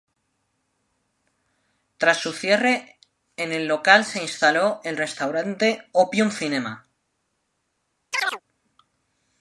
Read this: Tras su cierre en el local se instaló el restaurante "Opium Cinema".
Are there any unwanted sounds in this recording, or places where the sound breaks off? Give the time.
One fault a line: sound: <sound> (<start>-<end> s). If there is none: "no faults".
sound: chirp (8.1-8.4 s)